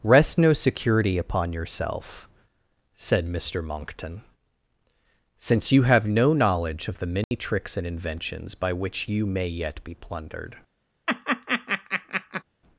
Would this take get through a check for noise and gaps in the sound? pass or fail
fail